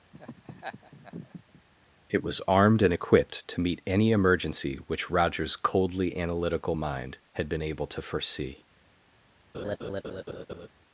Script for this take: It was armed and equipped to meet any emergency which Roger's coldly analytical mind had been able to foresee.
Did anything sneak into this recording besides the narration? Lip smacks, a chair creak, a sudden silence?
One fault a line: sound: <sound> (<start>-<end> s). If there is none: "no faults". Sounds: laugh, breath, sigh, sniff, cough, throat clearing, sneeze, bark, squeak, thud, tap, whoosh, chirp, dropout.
sound: laugh (0.1-1.6 s)
sound: laugh (9.5-10.7 s)